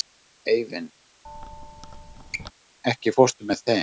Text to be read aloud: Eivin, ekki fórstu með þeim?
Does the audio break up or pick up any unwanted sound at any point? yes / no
yes